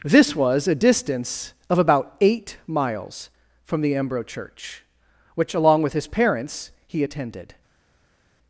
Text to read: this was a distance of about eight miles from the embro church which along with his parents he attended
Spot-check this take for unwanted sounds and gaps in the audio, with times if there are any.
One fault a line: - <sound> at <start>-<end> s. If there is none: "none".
none